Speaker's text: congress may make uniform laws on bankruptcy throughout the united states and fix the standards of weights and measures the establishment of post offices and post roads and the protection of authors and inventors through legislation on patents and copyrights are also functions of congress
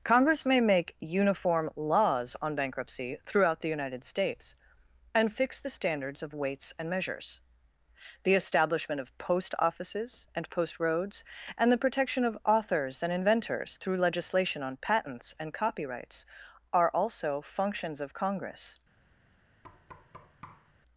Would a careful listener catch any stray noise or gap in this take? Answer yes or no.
yes